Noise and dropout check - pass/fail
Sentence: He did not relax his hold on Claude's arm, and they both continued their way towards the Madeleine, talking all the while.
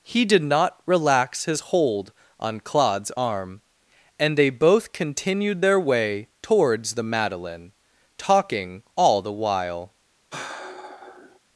fail